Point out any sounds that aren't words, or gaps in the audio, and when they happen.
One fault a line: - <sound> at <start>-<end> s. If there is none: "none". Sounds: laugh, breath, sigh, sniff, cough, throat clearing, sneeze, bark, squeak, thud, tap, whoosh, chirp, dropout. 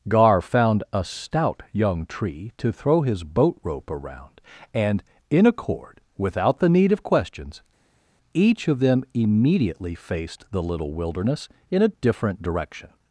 none